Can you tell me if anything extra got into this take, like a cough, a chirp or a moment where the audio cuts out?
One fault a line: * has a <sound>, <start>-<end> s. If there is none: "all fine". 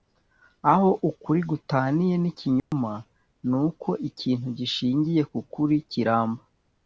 * has a dropout, 2.6-2.7 s